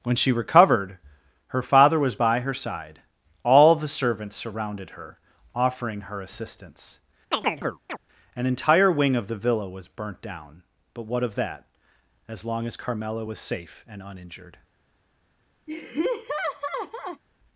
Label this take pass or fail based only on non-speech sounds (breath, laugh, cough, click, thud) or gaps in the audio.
fail